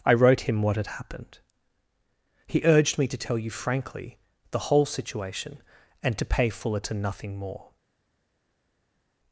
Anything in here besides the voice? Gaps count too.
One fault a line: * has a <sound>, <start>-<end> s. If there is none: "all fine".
all fine